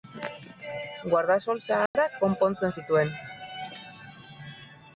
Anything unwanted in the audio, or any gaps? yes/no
yes